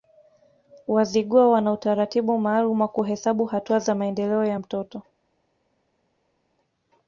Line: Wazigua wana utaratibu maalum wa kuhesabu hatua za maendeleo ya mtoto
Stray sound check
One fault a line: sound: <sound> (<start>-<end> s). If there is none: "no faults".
no faults